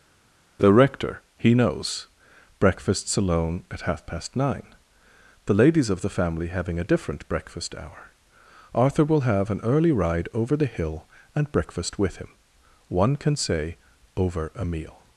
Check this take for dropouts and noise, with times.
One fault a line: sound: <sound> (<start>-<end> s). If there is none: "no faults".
no faults